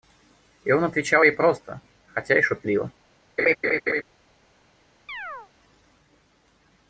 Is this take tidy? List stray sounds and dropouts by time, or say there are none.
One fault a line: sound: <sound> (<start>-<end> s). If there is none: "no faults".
sound: laugh (3.4-4.0 s)
sound: chirp (5.1-5.5 s)